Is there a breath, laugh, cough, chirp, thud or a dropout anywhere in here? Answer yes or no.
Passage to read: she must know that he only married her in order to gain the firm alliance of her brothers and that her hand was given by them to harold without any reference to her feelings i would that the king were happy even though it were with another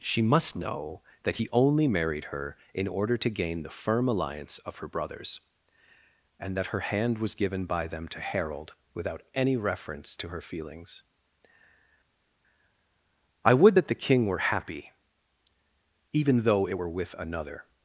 no